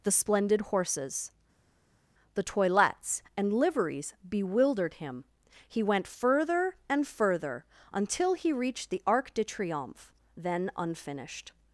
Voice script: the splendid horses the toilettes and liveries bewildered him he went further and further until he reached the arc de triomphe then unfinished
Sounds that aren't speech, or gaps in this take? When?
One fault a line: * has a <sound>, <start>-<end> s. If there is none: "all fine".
all fine